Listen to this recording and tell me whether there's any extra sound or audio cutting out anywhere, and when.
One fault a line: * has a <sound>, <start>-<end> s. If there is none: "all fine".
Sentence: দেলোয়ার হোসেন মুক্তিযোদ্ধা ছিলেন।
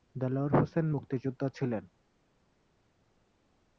all fine